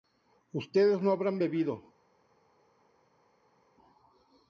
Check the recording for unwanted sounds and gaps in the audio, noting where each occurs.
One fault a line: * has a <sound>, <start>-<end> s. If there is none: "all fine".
all fine